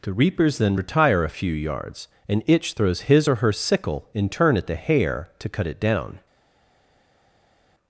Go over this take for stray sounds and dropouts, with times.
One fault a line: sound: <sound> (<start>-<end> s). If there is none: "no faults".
no faults